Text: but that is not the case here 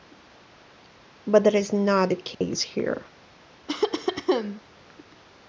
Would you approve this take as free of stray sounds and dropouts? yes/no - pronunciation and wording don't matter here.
no